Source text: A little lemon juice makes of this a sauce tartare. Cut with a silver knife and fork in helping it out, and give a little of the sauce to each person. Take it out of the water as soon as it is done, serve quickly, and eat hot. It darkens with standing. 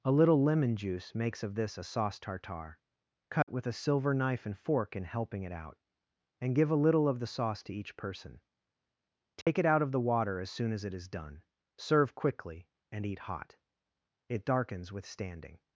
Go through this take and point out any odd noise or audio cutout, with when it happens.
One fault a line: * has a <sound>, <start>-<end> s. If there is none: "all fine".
* has a dropout, 3.4-3.5 s
* has a dropout, 9.4-9.5 s